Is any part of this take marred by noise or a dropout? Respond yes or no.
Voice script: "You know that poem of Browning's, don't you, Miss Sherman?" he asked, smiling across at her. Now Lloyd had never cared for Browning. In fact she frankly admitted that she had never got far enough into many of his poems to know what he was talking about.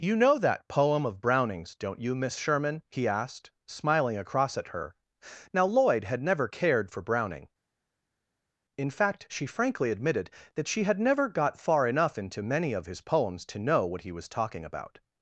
no